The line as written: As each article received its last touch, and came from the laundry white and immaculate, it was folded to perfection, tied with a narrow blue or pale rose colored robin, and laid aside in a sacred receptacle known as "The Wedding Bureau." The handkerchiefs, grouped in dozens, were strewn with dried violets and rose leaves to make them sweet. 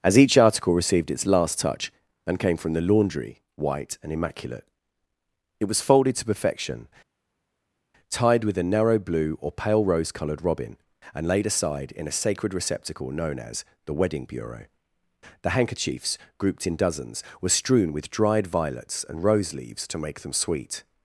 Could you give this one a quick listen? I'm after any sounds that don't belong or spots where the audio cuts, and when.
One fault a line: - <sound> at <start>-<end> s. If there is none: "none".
none